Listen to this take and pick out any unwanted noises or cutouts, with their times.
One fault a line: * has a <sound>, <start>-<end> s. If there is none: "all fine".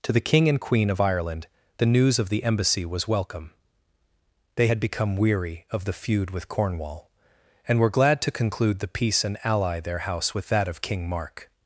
all fine